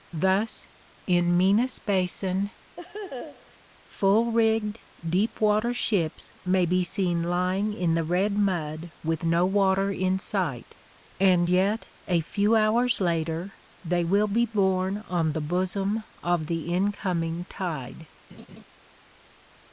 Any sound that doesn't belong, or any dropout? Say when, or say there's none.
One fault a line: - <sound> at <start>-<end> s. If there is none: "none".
- laugh at 2.8-3.6 s
- laugh at 18.3-18.6 s